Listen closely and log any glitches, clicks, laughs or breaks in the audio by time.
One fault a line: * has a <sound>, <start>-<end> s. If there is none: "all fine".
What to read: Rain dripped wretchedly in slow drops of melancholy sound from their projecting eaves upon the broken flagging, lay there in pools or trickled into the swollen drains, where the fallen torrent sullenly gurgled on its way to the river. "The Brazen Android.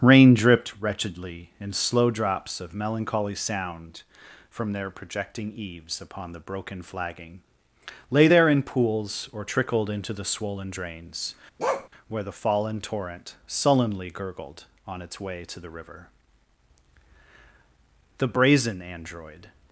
* has a bark, 11.6-11.9 s